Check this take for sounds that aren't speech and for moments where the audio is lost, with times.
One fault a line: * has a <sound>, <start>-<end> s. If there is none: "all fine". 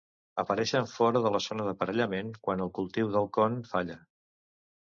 all fine